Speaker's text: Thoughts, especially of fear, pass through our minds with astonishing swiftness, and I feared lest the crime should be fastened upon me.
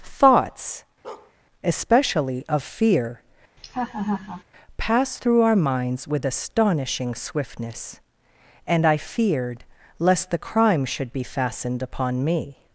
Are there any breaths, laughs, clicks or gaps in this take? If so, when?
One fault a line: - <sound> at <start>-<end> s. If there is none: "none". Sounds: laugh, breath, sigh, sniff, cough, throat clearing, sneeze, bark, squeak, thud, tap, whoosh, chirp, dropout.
- bark at 1.0-1.3 s
- laugh at 3.6-4.4 s